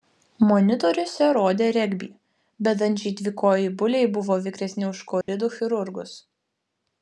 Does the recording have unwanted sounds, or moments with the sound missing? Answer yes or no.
yes